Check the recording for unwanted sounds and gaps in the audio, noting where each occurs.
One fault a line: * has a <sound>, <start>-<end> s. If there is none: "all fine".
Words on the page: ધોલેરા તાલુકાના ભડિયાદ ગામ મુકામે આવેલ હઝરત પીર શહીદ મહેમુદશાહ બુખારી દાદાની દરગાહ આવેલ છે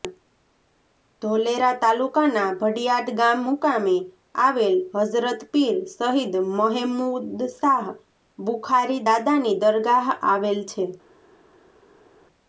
all fine